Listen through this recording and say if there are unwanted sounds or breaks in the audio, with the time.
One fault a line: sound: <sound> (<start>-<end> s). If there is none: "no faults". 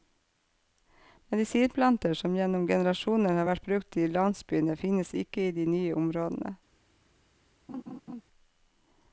sound: laugh (7.7-8.2 s)